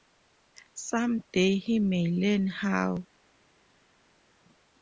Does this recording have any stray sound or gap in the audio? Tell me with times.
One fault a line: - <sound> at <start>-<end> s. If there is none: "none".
none